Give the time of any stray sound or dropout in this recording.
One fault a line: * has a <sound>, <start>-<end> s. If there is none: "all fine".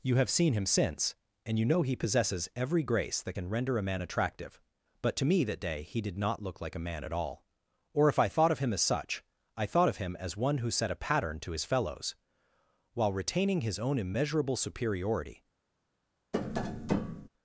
* has a tap, 16.3-17.3 s